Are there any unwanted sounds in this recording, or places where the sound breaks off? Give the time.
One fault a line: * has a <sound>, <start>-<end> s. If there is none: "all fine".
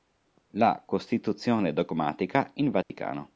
* has a dropout, 2.8-2.9 s